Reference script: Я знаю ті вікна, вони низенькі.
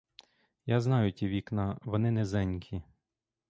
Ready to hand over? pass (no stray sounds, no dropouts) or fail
pass